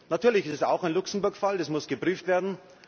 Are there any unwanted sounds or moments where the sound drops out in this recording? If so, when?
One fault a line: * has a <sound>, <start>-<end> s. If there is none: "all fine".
all fine